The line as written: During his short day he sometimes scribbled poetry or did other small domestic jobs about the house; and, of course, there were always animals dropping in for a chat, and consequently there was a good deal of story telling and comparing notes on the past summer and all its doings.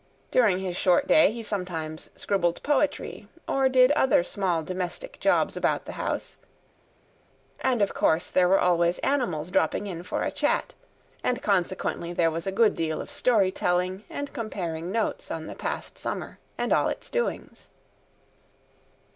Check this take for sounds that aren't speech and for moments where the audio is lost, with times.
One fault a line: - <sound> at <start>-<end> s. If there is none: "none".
none